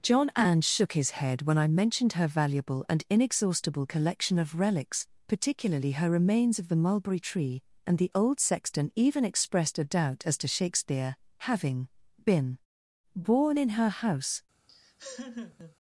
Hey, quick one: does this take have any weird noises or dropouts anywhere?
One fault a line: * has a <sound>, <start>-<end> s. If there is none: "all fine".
* has a laugh, 14.7-15.8 s